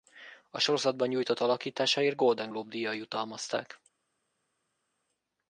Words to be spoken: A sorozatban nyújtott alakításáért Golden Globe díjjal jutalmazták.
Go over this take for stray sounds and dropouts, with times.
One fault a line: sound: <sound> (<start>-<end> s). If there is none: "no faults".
no faults